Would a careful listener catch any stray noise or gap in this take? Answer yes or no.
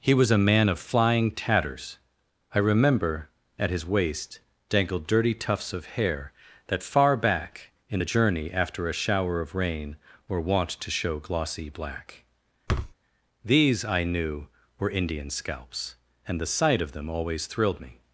yes